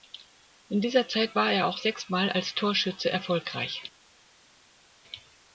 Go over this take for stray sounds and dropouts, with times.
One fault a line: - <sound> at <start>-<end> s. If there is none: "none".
none